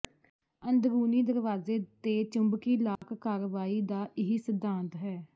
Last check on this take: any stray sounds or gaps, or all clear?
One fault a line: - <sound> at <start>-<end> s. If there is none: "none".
- dropout at 3.0-3.0 s